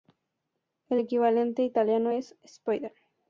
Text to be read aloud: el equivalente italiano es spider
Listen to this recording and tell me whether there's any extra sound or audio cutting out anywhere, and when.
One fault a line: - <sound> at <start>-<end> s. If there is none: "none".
none